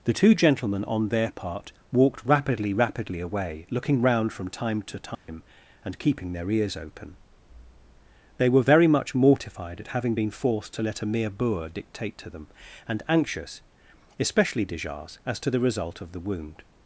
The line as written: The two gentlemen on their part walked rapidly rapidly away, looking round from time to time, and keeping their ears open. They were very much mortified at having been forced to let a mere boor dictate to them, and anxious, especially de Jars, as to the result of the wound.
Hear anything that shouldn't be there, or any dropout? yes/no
yes